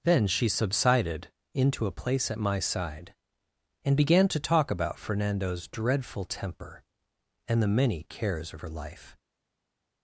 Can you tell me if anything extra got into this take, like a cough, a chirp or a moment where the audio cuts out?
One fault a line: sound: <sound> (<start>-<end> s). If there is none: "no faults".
no faults